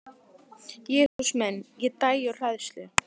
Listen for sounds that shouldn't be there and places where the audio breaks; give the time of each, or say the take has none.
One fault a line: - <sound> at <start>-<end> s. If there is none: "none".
- dropout at 1.1-1.2 s